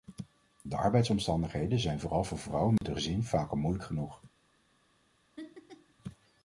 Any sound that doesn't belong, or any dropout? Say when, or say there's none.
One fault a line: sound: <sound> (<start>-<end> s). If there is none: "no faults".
sound: dropout (2.8-2.8 s)
sound: laugh (5.4-5.9 s)